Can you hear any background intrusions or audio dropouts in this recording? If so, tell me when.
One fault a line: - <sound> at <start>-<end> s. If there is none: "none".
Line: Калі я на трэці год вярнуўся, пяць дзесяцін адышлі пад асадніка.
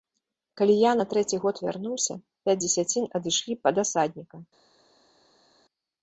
none